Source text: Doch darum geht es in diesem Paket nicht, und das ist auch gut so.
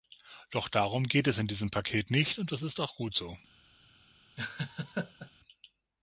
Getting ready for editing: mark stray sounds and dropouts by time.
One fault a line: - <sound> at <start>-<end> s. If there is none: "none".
- laugh at 4.4-5.3 s